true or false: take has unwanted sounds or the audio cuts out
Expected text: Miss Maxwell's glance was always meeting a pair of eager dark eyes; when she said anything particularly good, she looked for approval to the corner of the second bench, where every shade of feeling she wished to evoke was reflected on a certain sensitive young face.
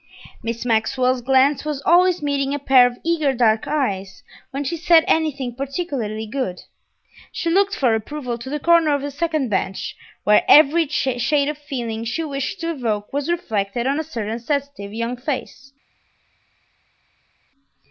false